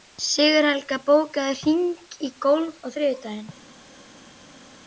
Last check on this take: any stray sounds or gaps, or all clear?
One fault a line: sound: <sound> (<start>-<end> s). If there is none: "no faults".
no faults